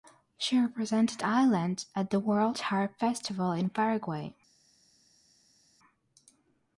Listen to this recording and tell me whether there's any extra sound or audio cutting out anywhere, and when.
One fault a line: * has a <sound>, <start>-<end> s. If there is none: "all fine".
all fine